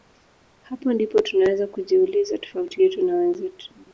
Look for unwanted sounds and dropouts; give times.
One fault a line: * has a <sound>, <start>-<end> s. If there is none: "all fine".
all fine